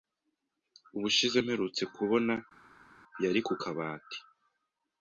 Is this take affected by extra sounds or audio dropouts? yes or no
no